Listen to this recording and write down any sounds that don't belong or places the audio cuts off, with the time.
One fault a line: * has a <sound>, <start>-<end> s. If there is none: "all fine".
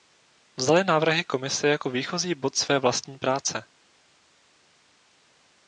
all fine